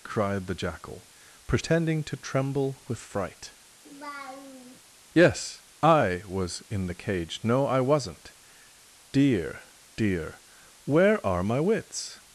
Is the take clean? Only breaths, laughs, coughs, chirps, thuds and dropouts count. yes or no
no